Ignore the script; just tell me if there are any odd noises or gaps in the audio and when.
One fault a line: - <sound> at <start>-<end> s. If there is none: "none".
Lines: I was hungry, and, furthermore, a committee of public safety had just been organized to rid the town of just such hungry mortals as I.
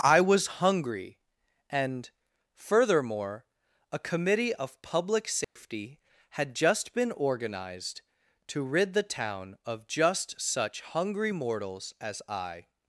- dropout at 5.4-5.6 s